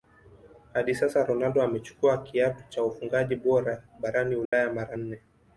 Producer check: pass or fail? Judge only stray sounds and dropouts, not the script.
fail